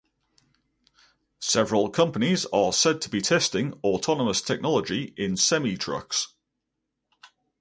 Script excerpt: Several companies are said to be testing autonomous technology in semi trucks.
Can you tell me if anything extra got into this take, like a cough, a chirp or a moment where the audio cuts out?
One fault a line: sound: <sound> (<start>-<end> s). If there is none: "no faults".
no faults